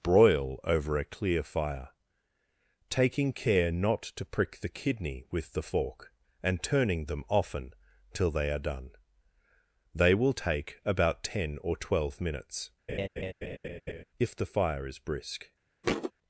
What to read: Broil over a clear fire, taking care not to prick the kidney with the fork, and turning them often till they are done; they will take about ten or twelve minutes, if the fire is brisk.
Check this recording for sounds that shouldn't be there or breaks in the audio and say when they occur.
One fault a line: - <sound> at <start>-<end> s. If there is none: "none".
- laugh at 12.9-14.0 s
- thud at 15.8-16.1 s